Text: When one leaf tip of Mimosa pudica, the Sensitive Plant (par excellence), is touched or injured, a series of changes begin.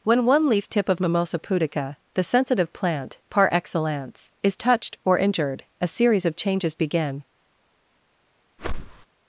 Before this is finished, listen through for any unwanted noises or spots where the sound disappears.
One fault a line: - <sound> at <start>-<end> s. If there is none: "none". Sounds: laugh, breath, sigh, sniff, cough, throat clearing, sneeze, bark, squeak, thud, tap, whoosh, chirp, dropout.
- whoosh at 8.6-9.1 s